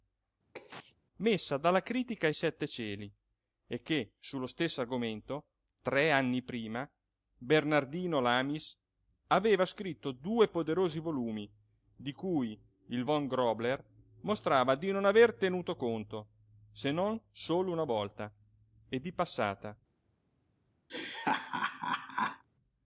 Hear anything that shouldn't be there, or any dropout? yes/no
yes